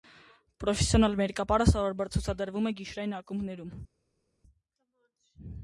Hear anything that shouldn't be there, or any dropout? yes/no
no